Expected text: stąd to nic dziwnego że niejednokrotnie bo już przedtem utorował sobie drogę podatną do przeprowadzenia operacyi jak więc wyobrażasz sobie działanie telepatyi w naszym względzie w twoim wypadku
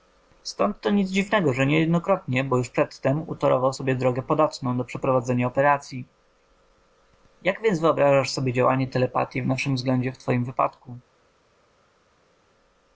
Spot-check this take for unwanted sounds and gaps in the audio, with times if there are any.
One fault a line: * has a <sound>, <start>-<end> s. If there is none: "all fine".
all fine